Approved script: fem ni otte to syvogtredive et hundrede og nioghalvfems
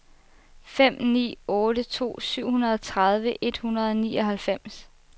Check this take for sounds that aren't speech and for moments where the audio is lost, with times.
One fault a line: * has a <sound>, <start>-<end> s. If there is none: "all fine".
all fine